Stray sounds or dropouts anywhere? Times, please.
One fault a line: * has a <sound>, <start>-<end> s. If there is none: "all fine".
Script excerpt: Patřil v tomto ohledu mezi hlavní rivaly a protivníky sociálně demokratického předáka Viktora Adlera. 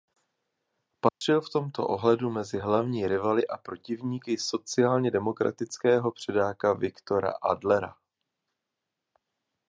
* has a dropout, 1.1-1.2 s